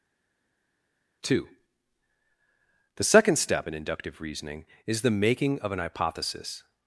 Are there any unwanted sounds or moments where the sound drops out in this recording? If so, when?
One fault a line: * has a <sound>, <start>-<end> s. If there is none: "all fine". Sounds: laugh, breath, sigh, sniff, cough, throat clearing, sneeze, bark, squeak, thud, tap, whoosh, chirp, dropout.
all fine